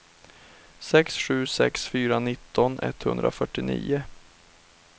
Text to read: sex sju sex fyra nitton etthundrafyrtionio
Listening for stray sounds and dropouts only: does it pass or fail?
pass